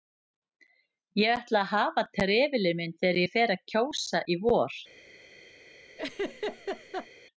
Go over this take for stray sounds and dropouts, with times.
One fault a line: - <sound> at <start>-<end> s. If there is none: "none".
- laugh at 6.0-7.1 s